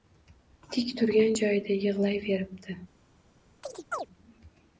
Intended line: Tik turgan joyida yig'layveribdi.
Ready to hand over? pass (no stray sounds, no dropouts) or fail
fail